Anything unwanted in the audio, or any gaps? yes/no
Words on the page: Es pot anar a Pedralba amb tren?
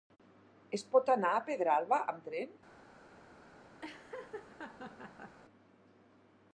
yes